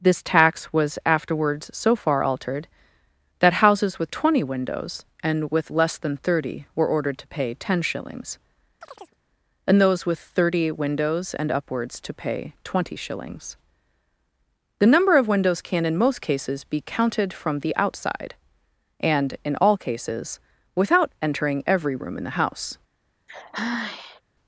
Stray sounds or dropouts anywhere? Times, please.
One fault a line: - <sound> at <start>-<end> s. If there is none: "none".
- chirp at 8.8-9.2 s
- sigh at 23.3-24.2 s